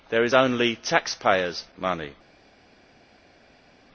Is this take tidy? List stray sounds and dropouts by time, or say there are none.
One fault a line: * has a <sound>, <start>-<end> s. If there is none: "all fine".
all fine